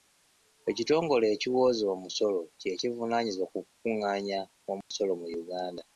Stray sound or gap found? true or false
true